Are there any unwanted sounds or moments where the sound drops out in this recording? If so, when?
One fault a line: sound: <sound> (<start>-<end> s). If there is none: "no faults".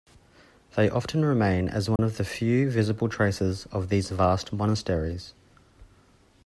sound: dropout (2.0-2.0 s)